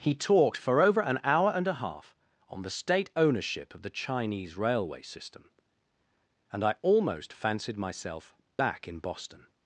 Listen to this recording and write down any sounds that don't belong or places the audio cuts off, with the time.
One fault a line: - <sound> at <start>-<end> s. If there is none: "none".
none